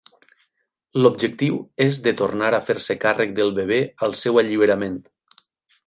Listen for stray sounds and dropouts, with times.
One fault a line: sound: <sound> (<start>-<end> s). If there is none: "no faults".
no faults